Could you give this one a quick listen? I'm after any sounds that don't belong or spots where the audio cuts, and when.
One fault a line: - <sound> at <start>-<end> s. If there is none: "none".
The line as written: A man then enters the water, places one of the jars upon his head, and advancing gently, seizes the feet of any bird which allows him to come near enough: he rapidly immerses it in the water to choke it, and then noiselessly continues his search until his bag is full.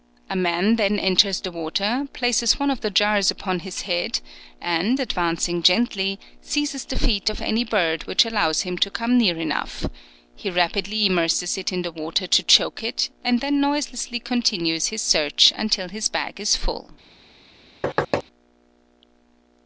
- thud at 17.8-18.2 s